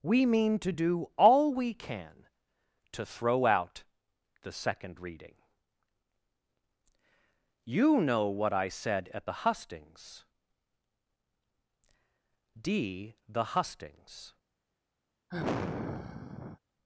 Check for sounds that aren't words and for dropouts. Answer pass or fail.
fail